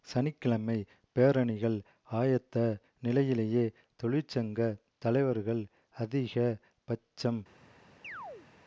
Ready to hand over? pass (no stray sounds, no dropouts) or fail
fail